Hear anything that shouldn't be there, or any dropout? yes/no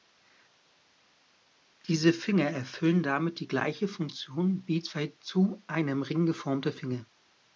no